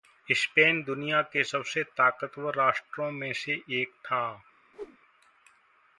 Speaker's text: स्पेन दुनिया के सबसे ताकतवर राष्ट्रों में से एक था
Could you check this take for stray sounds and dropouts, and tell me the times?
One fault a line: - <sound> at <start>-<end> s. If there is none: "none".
- whoosh at 4.7-5.0 s